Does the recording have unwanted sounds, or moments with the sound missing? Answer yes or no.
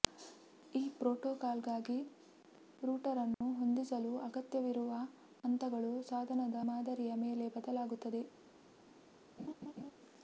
yes